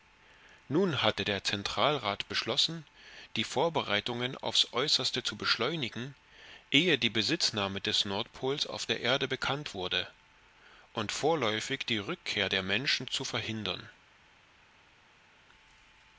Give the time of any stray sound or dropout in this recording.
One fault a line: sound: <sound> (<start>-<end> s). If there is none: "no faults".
no faults